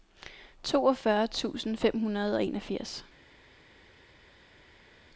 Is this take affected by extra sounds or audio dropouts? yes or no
no